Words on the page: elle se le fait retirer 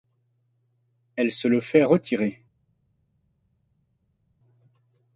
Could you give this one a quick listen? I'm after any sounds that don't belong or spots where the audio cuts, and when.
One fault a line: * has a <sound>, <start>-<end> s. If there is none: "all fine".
all fine